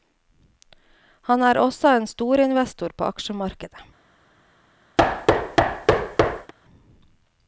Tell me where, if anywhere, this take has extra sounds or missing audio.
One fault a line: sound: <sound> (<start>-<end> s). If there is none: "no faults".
sound: thud (5.0-6.5 s)